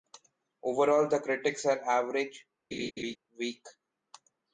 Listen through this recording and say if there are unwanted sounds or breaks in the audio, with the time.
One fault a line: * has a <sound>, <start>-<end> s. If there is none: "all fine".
* has a laugh, 2.7-3.2 s